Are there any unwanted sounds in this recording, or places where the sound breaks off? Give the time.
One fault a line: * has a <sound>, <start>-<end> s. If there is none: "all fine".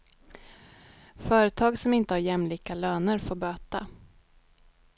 all fine